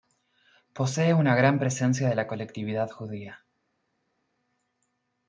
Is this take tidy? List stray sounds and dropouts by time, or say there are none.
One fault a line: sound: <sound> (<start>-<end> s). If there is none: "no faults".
no faults